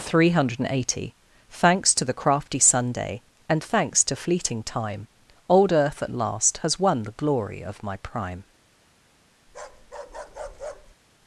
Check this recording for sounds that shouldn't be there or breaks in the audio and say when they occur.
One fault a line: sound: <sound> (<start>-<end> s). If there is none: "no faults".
sound: bark (9.5-11.0 s)